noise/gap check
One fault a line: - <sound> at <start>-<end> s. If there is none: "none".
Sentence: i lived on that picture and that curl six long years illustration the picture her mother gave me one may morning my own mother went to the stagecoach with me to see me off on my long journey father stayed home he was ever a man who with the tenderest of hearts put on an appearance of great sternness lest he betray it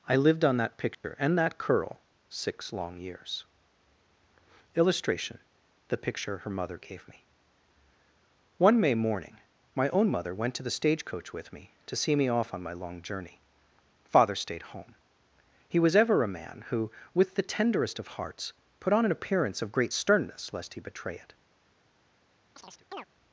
- dropout at 0.9-1.0 s
- chirp at 22.6-23.1 s